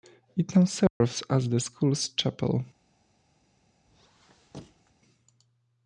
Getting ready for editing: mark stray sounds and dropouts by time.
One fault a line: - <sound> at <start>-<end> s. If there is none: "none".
- dropout at 0.9-1.0 s
- squeak at 3.9-4.9 s